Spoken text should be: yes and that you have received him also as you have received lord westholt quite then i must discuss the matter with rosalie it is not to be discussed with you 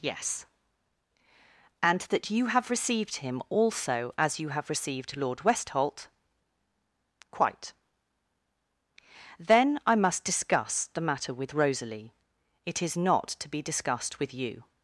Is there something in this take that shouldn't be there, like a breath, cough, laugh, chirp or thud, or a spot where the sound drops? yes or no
no